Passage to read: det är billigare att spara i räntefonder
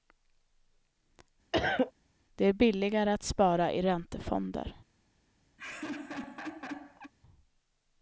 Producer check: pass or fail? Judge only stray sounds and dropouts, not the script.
fail